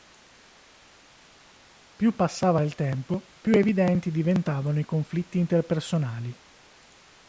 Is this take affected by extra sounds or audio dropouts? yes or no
no